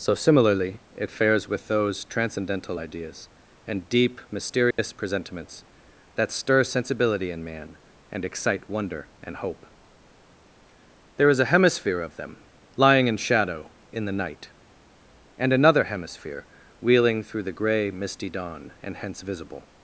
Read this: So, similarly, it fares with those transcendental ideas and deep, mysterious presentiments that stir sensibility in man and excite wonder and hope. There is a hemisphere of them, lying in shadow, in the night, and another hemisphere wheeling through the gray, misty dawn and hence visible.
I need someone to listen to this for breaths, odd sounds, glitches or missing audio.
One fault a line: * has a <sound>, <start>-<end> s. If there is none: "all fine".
* has a dropout, 4.7-4.8 s